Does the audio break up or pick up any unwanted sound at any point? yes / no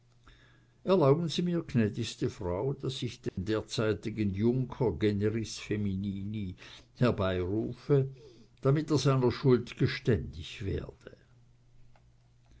yes